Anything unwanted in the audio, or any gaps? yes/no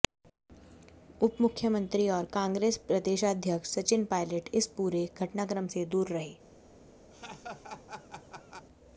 yes